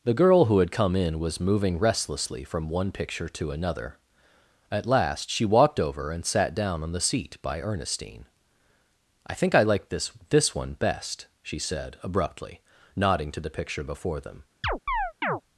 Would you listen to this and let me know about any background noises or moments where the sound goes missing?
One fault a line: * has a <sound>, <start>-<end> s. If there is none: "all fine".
* has a chirp, 14.6-15.4 s